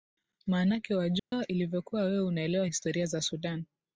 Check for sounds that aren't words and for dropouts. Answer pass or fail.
fail